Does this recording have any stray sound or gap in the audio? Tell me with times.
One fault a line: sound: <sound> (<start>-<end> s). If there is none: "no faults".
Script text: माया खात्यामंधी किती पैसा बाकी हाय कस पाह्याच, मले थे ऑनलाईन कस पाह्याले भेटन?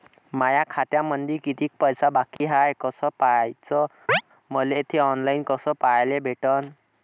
sound: dropout (2.4-2.4 s)
sound: chirp (4.1-4.2 s)